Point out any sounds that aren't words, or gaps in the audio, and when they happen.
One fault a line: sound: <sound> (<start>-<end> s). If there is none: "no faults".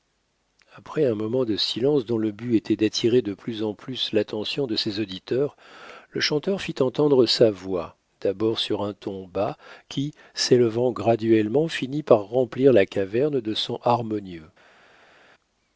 no faults